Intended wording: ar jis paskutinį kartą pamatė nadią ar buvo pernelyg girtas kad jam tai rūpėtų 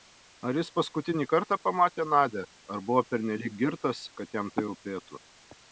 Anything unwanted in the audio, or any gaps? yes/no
no